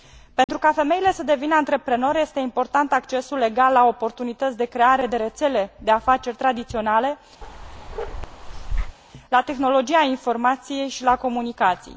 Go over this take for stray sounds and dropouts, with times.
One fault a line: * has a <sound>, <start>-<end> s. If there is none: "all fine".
* has a dropout, 0.4-0.5 s
* has a bark, 7.4-9.0 s